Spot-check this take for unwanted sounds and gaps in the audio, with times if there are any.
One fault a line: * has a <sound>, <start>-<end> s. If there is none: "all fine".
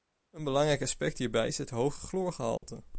* has a dropout, 2.6-2.6 s